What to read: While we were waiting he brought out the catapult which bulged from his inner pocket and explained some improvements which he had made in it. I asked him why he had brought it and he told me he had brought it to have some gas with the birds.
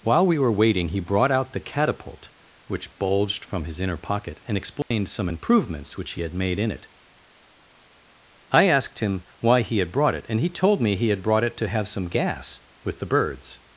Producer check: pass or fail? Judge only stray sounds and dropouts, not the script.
fail